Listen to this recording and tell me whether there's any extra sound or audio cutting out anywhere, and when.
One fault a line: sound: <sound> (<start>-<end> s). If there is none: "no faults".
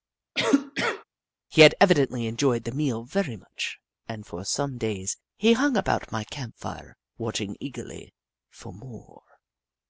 sound: cough (0.3-1.0 s)